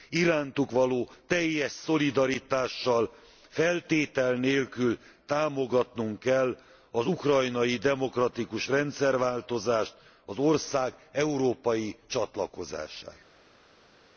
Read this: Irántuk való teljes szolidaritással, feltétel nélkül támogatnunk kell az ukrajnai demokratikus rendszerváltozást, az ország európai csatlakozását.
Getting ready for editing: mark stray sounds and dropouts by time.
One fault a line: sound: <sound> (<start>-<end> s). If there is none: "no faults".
no faults